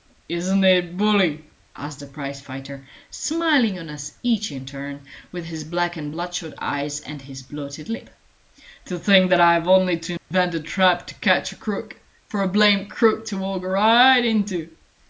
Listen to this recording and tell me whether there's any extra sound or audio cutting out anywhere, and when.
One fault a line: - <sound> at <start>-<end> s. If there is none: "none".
- dropout at 10.2-10.3 s